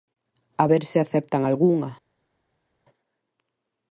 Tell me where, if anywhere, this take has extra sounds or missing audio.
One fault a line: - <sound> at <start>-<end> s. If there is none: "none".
none